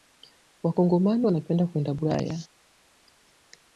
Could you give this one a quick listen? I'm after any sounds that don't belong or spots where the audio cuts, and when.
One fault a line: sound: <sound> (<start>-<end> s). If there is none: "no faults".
no faults